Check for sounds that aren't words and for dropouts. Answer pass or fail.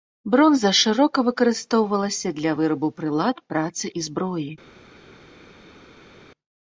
pass